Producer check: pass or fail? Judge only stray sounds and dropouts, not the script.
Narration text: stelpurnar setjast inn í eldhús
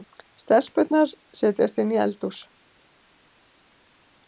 pass